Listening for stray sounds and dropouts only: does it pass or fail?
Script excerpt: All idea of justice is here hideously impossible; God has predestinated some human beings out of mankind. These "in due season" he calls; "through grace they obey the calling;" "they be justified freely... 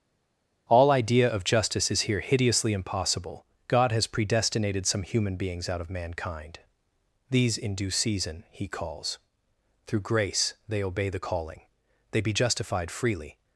pass